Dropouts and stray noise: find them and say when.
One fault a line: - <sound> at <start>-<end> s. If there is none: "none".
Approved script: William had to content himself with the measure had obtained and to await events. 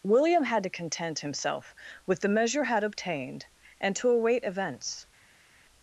none